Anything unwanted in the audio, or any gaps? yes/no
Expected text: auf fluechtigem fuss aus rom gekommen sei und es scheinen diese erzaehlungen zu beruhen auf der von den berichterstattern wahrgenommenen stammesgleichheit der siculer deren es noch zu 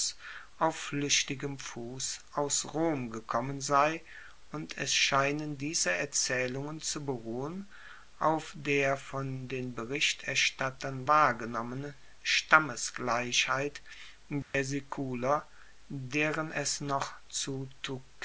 yes